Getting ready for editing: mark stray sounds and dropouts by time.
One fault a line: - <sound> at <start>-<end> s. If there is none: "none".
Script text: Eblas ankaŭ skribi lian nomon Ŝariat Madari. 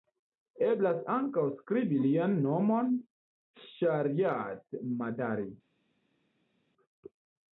none